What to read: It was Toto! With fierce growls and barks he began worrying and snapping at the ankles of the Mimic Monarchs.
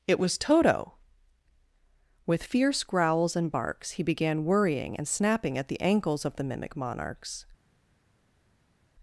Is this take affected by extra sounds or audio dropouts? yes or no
no